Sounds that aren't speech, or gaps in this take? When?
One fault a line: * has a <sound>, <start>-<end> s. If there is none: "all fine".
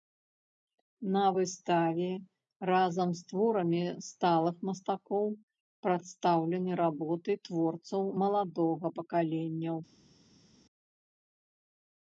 all fine